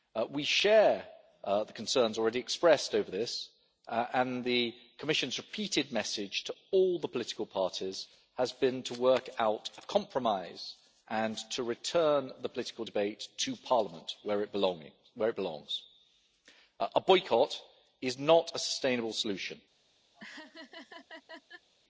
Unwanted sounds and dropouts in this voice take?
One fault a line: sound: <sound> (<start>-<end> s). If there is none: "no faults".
sound: laugh (20.1-21.7 s)